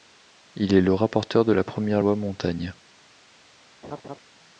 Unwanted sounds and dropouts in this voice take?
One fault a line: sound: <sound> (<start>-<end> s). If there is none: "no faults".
sound: laugh (3.8-4.2 s)